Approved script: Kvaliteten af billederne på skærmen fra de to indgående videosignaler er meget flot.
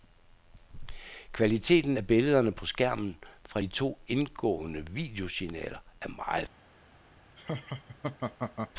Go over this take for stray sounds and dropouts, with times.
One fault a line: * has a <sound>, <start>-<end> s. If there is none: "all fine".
* has a laugh, 7.4-8.7 s